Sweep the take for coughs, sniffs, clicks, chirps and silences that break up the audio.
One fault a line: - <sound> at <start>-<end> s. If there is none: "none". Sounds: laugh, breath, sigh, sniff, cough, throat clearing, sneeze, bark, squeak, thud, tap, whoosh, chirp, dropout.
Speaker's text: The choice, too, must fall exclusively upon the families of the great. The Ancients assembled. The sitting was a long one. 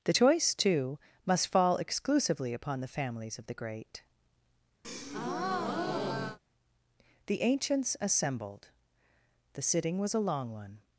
- breath at 4.8-6.4 s